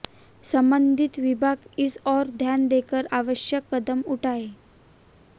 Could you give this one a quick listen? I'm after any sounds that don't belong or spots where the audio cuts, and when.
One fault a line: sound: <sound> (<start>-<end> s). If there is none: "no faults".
no faults